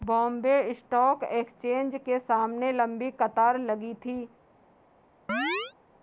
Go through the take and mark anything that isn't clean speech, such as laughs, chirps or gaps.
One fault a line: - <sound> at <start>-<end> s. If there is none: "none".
- chirp at 5.3-5.7 s